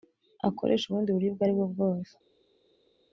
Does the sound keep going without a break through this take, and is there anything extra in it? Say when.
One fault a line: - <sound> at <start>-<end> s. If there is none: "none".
none